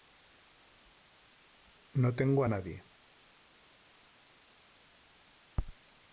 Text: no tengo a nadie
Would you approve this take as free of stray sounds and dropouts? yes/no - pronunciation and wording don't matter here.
yes